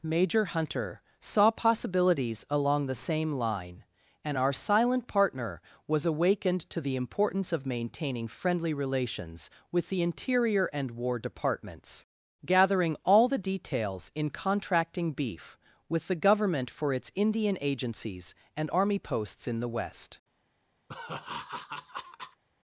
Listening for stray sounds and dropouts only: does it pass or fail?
fail